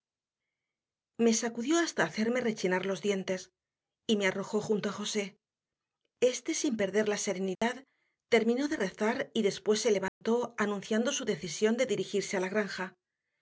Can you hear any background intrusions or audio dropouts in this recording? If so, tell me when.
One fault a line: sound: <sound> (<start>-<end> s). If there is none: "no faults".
sound: dropout (7.6-7.6 s)
sound: dropout (10.1-10.2 s)